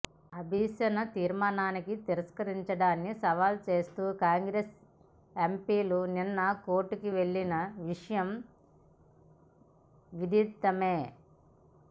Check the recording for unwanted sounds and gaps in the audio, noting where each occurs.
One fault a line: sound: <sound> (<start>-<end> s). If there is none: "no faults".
no faults